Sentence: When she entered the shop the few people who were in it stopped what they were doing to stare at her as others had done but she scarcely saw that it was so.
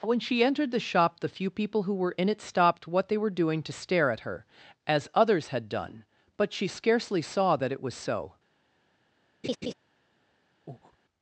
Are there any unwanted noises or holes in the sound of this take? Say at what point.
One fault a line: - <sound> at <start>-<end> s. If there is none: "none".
- laugh at 9.4-9.7 s
- breath at 10.7-11.0 s